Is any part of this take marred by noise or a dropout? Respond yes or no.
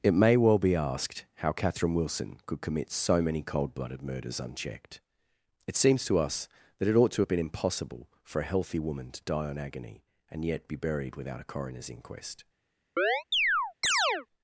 yes